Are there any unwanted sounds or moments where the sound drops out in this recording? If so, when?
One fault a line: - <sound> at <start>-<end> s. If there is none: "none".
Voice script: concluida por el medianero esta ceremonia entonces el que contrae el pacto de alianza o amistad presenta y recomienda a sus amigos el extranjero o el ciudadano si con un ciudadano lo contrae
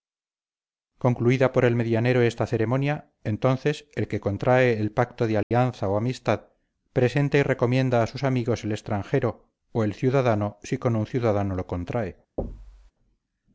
- dropout at 5.4-5.5 s
- thud at 12.4-12.9 s